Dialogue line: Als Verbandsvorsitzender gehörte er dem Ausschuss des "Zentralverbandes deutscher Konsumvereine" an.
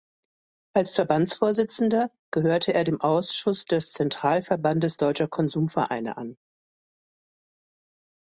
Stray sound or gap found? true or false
false